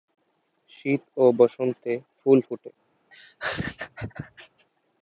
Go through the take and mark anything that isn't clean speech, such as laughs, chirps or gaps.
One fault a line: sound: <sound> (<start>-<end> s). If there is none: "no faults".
sound: laugh (3.1-4.7 s)